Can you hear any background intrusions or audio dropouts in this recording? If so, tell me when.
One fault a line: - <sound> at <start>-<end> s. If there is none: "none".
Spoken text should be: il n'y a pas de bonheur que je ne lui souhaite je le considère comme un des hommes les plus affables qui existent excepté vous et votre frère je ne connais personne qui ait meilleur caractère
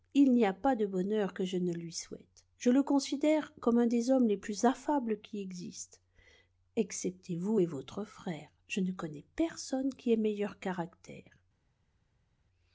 none